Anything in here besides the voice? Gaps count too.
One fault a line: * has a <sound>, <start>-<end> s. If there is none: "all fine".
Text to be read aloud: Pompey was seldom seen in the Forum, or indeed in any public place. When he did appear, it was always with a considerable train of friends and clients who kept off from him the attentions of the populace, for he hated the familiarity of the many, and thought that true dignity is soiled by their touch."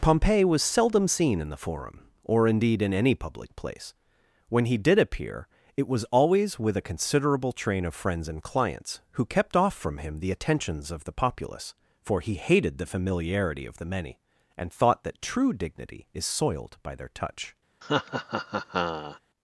* has a laugh, 17.8-19.2 s